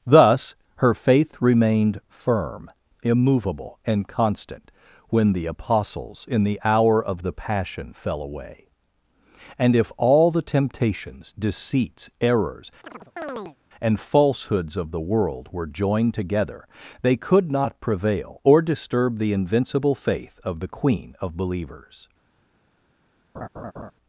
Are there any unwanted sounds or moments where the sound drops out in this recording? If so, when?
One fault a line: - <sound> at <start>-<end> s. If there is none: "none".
- chirp at 12.8-13.6 s
- laugh at 23.3-23.9 s